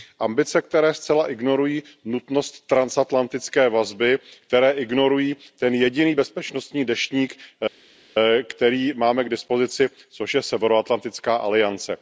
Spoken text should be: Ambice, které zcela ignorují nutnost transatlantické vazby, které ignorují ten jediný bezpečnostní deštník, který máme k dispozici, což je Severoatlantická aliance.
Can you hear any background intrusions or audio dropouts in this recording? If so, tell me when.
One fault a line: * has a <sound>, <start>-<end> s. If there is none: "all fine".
all fine